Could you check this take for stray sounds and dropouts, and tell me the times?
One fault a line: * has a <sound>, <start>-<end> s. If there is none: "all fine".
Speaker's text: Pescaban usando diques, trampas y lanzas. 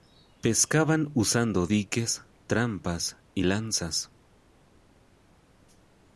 all fine